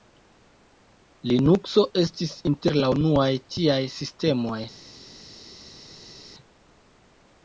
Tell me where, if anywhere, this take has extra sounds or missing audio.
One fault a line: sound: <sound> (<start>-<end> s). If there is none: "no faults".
no faults